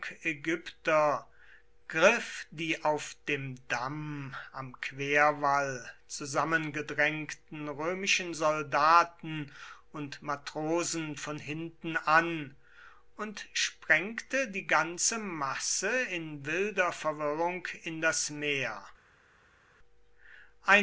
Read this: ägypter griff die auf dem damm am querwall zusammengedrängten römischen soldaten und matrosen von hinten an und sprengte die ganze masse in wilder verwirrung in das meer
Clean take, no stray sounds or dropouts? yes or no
yes